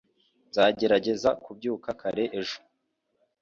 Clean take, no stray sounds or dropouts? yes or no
yes